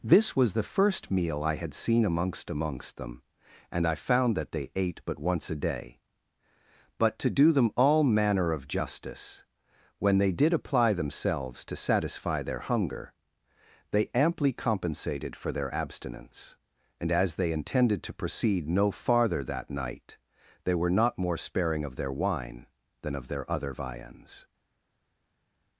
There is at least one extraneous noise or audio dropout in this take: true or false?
false